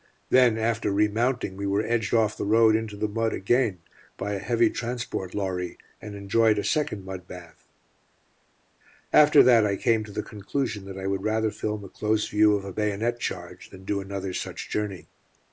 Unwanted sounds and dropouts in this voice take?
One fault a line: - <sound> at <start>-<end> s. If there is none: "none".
none